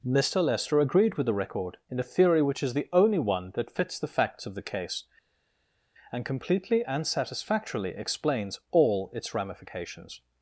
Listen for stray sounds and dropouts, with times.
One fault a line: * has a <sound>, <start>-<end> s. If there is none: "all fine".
all fine